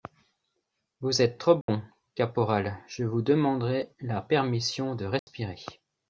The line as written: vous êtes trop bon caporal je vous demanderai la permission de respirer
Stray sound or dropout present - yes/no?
yes